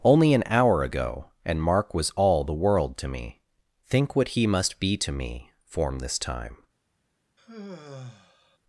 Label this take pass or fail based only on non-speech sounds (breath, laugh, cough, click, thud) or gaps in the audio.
fail